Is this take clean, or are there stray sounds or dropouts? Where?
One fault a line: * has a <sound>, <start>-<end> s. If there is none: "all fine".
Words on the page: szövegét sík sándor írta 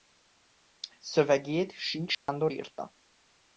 * has a dropout, 2.1-2.3 s